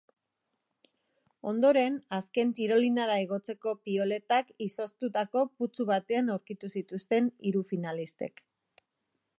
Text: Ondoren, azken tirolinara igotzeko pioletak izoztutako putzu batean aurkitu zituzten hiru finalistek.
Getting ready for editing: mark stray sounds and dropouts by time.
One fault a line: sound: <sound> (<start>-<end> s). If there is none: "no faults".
no faults